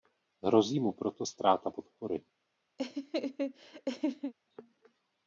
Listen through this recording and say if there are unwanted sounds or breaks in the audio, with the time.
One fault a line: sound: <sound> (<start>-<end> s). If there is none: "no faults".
sound: laugh (2.8-4.3 s)